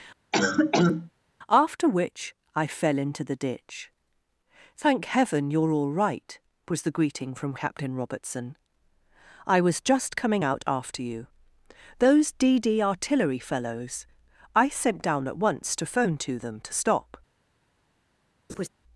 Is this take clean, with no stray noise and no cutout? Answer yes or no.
no